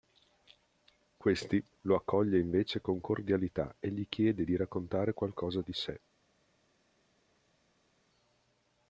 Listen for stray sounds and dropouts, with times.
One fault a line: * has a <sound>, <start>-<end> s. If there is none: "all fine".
all fine